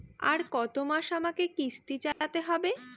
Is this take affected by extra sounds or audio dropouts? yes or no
yes